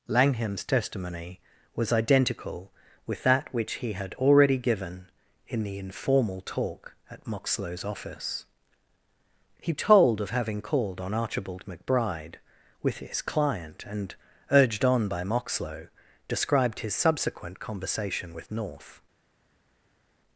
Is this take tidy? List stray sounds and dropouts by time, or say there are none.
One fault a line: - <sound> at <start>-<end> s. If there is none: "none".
none